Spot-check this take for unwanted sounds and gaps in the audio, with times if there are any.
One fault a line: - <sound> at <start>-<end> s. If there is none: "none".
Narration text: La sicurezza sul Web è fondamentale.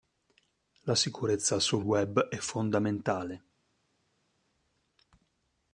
none